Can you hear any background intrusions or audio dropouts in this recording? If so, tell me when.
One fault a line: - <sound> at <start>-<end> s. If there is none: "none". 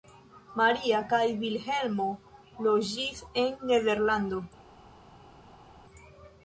none